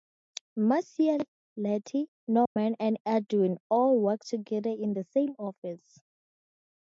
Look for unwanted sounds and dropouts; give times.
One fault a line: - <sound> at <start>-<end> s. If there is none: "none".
- dropout at 2.5-2.6 s